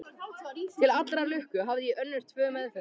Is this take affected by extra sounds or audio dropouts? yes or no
no